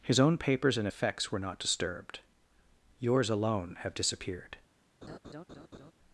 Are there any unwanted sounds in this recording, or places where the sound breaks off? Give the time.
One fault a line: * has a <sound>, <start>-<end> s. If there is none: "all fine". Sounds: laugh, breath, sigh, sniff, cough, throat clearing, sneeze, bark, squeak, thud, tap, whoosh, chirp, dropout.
* has a laugh, 5.0-5.9 s